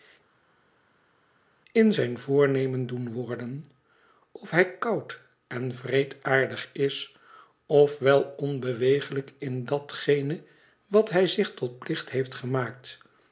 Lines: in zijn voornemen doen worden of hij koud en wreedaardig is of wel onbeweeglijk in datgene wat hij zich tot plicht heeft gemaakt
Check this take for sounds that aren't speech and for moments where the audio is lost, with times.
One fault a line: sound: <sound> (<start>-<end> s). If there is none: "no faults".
no faults